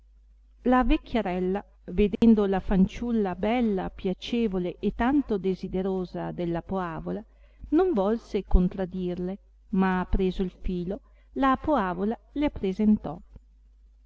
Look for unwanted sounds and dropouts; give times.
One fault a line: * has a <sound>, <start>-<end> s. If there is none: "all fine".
* has a dropout, 2.2-2.2 s